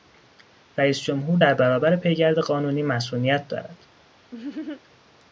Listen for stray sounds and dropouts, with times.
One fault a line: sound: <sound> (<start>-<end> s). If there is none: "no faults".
sound: laugh (4.3-4.8 s)